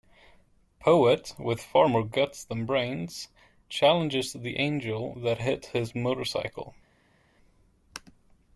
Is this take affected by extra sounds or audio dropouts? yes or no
no